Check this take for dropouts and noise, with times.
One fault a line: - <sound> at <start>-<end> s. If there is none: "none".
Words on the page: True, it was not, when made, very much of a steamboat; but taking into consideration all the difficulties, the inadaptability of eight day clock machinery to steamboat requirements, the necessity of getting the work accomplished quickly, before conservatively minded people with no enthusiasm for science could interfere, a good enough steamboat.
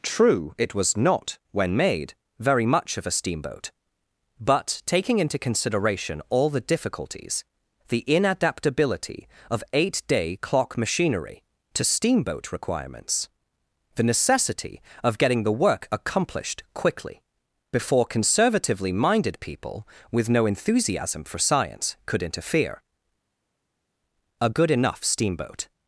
none